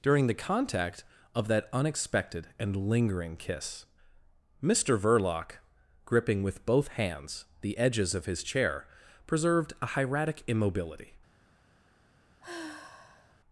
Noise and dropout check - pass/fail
fail